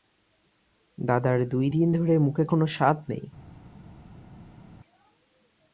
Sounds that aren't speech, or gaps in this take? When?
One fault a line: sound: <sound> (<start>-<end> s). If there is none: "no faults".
no faults